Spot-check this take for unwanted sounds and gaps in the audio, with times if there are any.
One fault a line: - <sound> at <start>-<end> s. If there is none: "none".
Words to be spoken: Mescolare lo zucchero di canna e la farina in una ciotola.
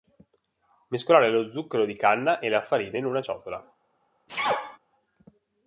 - sneeze at 4.3-4.8 s